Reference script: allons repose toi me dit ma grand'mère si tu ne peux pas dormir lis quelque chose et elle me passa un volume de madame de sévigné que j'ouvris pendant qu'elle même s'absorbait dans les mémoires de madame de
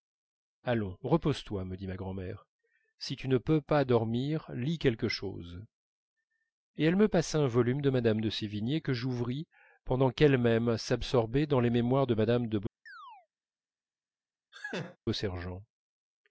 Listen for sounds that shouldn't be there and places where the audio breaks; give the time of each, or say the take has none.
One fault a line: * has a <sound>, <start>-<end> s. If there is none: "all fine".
* has a chirp, 12.9-13.3 s
* has a laugh, 14.5-15.0 s